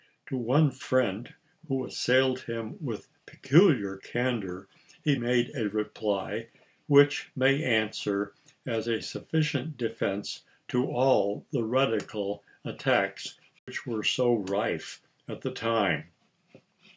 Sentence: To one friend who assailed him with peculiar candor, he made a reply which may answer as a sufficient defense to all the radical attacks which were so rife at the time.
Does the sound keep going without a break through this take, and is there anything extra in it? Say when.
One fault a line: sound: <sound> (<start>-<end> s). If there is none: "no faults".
sound: dropout (13.6-13.7 s)